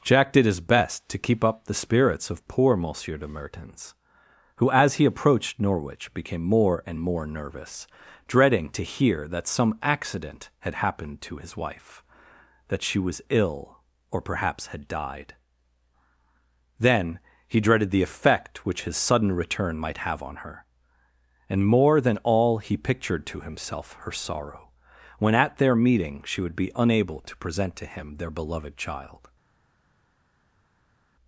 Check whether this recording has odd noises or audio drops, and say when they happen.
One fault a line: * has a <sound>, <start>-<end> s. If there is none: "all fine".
all fine